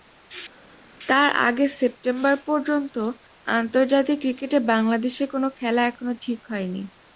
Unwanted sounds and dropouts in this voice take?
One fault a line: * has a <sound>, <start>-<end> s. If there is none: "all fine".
all fine